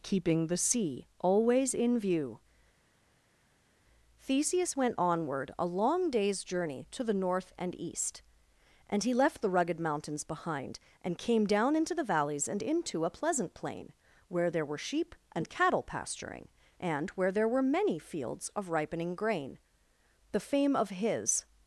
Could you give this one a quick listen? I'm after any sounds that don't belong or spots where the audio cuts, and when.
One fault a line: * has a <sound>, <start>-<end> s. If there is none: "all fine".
all fine